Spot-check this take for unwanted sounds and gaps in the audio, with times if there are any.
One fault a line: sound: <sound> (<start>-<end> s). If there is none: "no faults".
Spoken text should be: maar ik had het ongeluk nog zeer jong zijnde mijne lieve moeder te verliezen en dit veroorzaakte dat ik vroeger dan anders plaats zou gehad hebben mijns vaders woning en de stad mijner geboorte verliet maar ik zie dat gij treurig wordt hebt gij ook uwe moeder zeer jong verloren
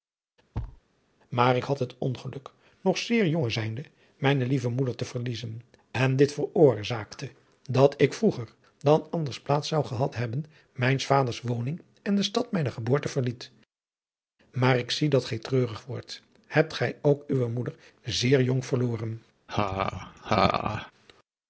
sound: thud (0.5-0.8 s)
sound: laugh (19.5-20.9 s)